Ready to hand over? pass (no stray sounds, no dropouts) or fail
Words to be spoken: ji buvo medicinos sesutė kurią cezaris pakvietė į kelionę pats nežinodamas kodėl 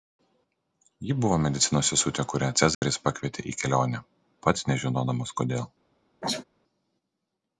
fail